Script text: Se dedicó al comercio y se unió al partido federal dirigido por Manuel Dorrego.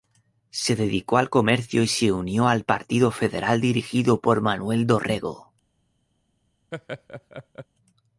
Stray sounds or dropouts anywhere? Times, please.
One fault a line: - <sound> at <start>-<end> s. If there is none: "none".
- laugh at 6.7-7.7 s